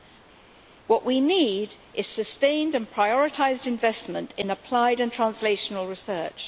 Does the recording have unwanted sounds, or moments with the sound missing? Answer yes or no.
no